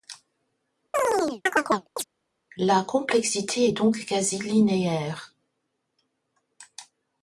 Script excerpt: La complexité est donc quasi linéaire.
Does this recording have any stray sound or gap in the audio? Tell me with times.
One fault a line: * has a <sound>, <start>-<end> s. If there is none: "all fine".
* has a chirp, 0.9-2.0 s